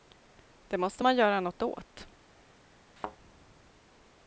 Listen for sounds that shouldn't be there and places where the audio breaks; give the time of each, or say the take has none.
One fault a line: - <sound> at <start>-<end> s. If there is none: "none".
- thud at 3.0-3.2 s